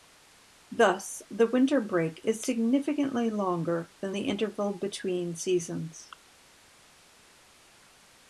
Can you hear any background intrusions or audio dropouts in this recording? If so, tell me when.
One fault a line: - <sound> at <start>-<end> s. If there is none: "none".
none